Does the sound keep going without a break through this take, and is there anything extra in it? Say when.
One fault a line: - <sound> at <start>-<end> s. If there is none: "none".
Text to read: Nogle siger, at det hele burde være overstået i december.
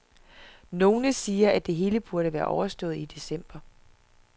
none